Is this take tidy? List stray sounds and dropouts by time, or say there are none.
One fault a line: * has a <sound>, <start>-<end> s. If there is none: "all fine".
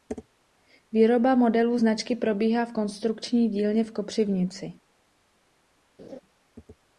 * has a laugh, 6.0-6.2 s